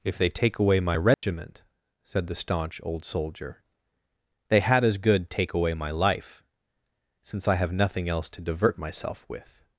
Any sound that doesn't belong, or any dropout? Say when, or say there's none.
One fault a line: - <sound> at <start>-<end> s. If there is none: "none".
- dropout at 1.1-1.2 s